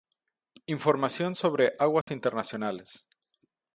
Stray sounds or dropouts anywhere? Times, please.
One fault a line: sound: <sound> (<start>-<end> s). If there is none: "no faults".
sound: dropout (2.0-2.1 s)